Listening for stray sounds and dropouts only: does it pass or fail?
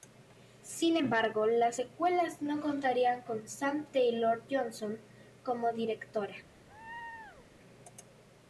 fail